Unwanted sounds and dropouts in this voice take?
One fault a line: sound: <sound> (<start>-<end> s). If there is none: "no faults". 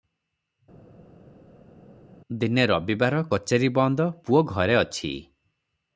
no faults